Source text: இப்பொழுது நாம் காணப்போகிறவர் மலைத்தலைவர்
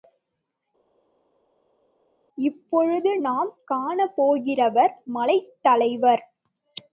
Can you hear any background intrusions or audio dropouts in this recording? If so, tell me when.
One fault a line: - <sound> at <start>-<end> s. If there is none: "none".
none